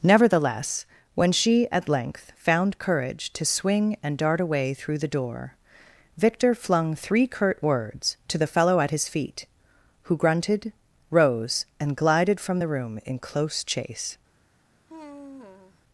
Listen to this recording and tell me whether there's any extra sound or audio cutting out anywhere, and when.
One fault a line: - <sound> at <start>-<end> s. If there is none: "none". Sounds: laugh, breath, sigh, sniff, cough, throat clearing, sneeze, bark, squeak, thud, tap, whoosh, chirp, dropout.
- sigh at 14.9-15.8 s